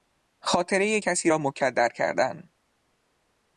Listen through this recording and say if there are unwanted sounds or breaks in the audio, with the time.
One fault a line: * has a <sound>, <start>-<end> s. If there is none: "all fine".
all fine